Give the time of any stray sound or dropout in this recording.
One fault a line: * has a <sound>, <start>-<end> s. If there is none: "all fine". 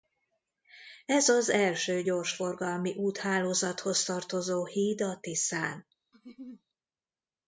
* has a laugh, 6.1-6.6 s